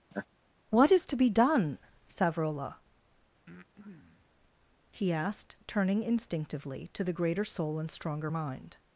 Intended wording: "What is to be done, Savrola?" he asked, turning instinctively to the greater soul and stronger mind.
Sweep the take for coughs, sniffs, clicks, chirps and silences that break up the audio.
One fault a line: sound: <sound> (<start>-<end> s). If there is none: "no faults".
sound: laugh (0.1-0.3 s)
sound: breath (3.5-4.3 s)